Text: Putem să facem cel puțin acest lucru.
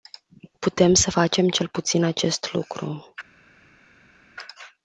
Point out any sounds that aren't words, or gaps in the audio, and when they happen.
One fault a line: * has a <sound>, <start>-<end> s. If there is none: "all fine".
all fine